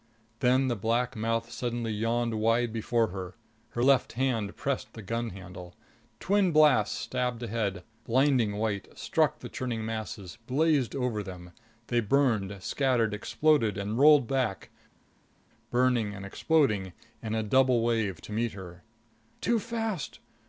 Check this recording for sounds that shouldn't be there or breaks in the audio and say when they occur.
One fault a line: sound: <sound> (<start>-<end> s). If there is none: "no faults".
no faults